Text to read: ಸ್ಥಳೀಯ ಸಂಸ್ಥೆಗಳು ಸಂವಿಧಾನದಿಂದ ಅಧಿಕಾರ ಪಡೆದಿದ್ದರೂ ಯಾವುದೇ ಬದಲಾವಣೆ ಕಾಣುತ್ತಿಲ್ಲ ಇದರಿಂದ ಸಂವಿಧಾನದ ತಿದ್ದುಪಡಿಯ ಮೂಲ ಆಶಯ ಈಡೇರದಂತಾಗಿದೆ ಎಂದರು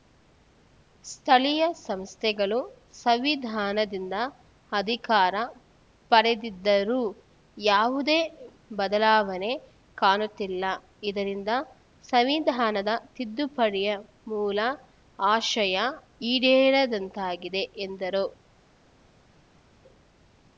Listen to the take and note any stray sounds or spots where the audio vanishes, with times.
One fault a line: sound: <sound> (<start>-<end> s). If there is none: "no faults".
no faults